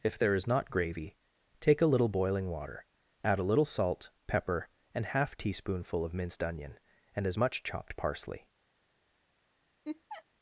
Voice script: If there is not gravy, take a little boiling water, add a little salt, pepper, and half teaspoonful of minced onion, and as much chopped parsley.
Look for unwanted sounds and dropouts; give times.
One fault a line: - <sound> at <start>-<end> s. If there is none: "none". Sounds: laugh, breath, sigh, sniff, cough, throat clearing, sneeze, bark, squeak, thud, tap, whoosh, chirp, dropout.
- laugh at 9.8-10.2 s